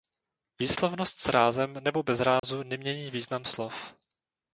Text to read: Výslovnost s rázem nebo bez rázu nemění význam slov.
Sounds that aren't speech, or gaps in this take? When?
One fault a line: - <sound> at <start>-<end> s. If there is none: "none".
- dropout at 2.4-2.4 s